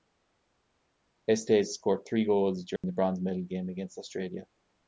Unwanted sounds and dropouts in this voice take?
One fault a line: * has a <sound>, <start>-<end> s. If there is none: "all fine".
* has a dropout, 2.8-2.8 s